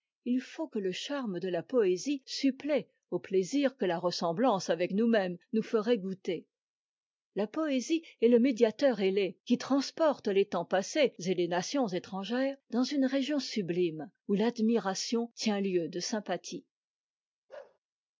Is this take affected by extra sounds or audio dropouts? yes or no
yes